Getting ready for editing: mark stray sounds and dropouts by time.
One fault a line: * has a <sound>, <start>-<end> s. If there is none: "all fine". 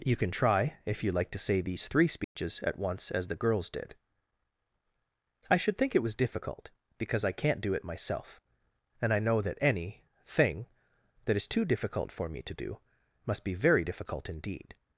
* has a dropout, 2.2-2.4 s